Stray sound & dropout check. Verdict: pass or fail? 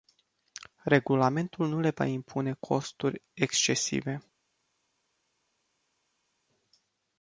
pass